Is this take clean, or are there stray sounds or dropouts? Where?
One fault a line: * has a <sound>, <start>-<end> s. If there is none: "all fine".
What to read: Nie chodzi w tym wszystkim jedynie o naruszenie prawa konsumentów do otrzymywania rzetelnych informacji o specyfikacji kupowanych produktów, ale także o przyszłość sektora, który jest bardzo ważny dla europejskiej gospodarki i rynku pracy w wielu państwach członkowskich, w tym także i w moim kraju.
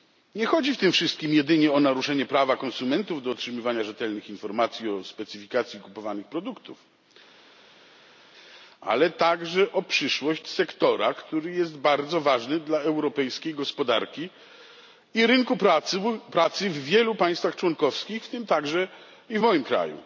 all fine